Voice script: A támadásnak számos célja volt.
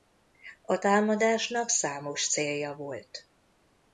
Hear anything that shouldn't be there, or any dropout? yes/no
no